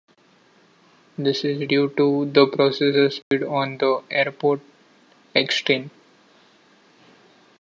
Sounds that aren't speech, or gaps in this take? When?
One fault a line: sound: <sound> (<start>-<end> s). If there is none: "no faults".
sound: dropout (3.2-3.3 s)